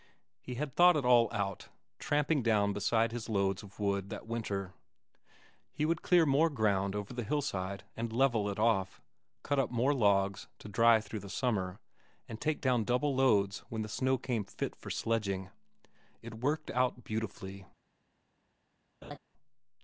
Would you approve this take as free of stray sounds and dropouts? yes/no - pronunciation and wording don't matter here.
no